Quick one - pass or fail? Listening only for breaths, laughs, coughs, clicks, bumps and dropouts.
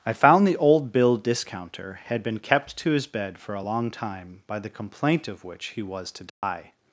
fail